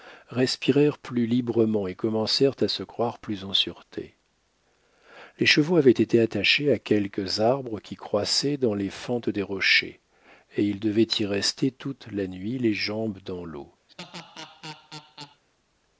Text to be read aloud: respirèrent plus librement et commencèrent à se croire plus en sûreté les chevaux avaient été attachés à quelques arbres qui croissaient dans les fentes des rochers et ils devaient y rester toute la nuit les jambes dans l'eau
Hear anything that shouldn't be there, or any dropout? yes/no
yes